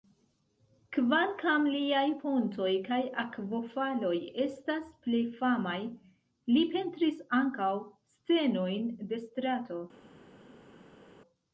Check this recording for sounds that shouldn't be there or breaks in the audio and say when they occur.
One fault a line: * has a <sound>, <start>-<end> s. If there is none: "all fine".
all fine